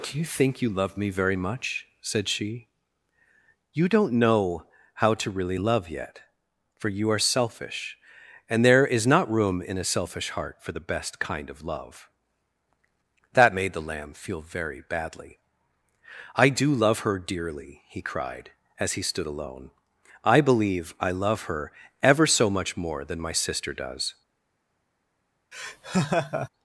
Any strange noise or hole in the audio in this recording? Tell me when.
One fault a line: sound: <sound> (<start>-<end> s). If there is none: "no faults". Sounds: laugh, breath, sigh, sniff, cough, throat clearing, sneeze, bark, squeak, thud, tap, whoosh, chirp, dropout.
sound: laugh (25.5-26.5 s)